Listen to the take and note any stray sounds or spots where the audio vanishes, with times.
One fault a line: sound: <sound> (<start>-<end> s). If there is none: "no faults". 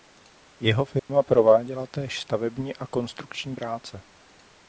sound: dropout (1.0-1.1 s)